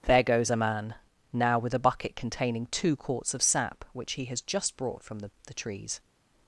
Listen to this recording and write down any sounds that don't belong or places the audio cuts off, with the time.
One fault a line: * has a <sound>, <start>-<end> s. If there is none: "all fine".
all fine